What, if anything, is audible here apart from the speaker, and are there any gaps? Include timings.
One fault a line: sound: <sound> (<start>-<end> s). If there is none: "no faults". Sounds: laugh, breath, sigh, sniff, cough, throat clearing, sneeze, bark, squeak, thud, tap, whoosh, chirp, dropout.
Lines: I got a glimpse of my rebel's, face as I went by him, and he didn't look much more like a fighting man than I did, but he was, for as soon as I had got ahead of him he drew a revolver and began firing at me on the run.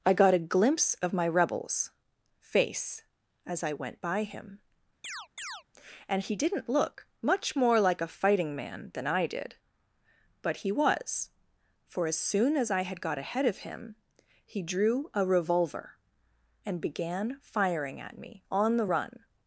sound: chirp (5.0-5.6 s)